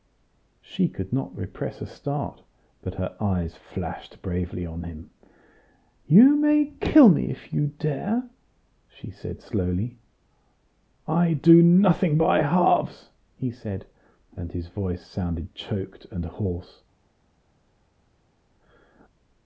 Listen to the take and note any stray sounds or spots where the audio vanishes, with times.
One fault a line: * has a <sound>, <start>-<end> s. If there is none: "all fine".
all fine